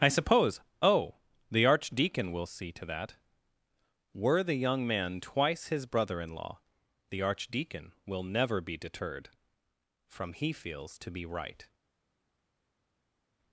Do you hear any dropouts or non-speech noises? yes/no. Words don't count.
no